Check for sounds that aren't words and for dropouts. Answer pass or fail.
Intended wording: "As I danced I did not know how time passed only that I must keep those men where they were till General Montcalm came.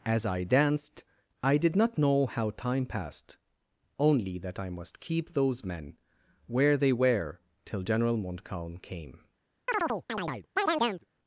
fail